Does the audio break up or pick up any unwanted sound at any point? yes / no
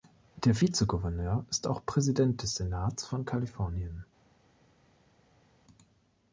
no